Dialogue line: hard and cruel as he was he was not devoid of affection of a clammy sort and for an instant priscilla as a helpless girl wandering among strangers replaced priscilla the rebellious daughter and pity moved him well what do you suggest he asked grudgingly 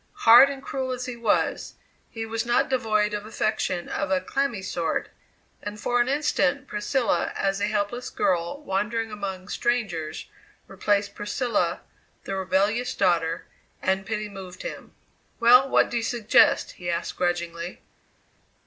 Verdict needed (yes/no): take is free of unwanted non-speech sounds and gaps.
yes